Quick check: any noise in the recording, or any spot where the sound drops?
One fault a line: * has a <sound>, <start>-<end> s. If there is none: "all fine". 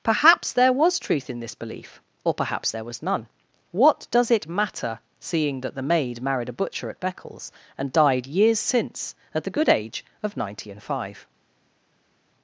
all fine